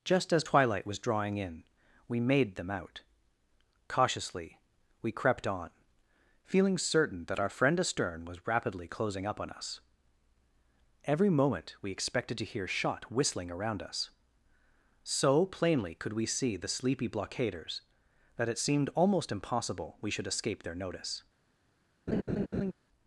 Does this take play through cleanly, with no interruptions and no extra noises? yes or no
no